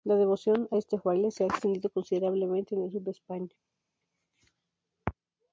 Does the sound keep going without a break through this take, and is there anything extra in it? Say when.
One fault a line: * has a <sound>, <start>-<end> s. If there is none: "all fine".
all fine